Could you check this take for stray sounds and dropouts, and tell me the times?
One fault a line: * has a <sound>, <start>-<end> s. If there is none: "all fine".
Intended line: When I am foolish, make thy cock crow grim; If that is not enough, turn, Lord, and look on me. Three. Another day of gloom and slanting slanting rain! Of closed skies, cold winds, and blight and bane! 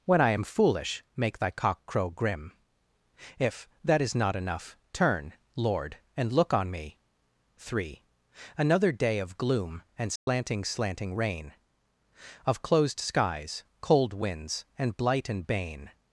* has a dropout, 10.2-10.3 s